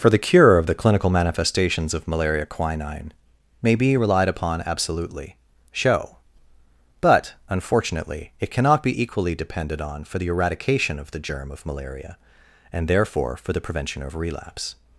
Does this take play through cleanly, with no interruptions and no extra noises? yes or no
yes